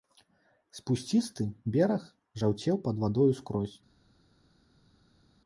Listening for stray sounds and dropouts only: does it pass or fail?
pass